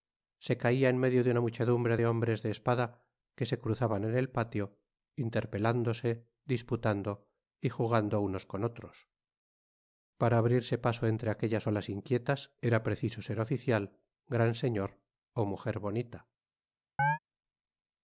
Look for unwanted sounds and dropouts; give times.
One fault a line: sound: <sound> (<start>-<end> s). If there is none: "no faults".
sound: chirp (17.0-17.2 s)